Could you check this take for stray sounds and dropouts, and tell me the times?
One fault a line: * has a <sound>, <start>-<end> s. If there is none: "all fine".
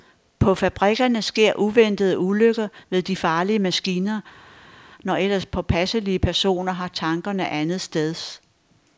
all fine